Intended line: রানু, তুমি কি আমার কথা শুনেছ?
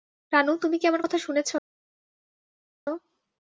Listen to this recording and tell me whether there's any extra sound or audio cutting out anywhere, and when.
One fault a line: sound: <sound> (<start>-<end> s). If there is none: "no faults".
no faults